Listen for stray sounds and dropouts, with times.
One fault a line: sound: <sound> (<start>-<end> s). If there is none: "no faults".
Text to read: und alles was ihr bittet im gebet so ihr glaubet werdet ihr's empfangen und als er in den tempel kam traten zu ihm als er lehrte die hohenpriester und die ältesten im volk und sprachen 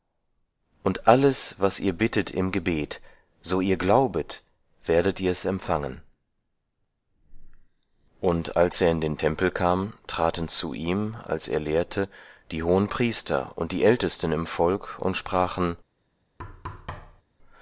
sound: thud (16.4-17.2 s)